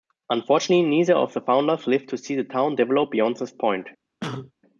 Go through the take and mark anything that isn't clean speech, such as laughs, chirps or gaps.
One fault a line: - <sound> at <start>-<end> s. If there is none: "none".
- cough at 4.2-4.5 s